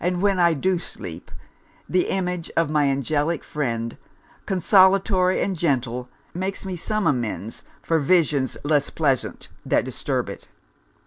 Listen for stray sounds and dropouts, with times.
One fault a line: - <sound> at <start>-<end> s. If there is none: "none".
none